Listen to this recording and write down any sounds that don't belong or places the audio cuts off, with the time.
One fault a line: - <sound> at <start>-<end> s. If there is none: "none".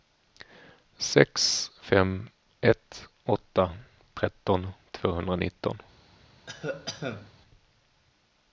- cough at 6.5-7.3 s